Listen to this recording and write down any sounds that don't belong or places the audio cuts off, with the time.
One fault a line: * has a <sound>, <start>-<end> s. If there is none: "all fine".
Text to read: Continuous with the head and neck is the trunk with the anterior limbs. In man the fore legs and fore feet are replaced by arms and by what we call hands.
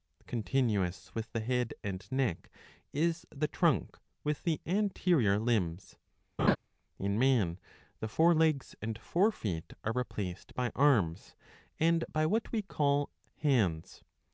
* has a laugh, 6.4-6.6 s